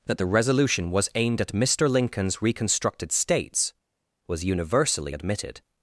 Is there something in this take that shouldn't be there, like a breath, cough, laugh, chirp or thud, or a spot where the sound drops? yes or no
no